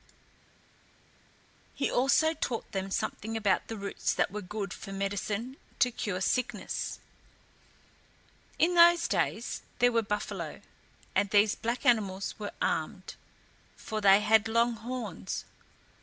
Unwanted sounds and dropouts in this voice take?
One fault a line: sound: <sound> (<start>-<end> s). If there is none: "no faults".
no faults